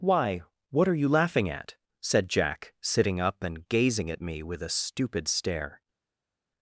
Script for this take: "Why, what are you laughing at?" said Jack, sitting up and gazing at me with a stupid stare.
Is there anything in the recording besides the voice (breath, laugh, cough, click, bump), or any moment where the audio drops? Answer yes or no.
no